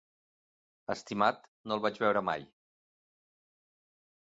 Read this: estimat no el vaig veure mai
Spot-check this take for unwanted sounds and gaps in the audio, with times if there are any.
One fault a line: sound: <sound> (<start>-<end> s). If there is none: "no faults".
no faults